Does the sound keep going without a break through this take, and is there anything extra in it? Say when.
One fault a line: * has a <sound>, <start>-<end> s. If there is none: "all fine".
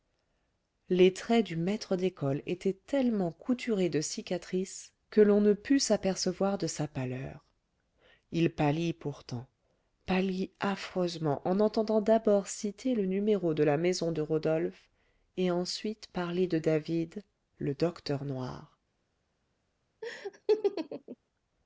* has a laugh, 20.0-21.2 s